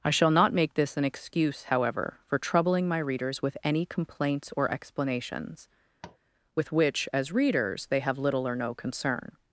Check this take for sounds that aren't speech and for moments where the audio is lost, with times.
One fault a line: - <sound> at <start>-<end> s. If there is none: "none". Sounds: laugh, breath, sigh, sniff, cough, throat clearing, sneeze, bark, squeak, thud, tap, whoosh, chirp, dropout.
- tap at 6.0-6.2 s